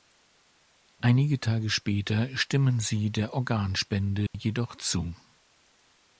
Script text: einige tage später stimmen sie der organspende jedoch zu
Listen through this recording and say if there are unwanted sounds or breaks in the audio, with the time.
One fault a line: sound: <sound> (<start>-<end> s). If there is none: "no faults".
sound: dropout (4.3-4.3 s)